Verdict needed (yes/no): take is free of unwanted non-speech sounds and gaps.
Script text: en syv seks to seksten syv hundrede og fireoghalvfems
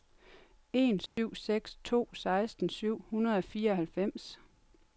no